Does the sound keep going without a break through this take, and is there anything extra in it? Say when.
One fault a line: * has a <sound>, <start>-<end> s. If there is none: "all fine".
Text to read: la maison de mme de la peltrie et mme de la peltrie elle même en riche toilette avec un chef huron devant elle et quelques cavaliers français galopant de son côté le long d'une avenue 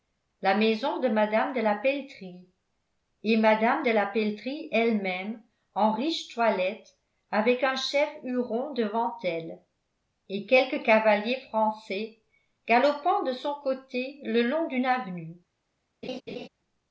* has a laugh, 16.0-16.5 s